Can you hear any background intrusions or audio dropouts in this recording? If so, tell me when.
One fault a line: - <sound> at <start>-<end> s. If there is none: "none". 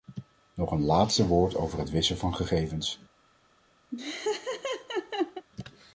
- laugh at 3.9-5.5 s